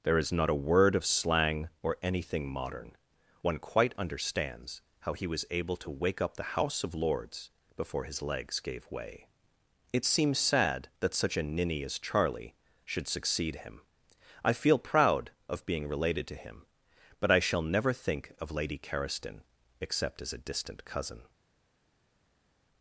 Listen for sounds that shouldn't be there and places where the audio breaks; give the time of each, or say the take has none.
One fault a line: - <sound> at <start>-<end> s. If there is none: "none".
none